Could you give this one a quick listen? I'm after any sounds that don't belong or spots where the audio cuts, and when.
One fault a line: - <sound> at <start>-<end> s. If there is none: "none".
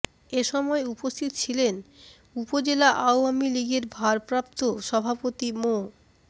none